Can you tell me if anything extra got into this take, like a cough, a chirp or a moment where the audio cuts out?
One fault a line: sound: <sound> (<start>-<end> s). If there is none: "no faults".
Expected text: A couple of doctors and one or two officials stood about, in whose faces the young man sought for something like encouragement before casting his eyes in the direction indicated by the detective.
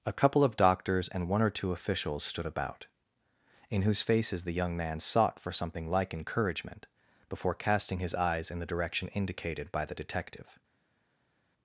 no faults